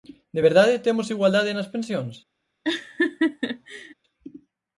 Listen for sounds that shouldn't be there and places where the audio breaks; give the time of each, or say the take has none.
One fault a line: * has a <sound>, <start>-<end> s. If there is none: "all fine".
* has a laugh, 2.6-3.9 s